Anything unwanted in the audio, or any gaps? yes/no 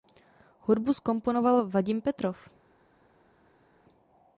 no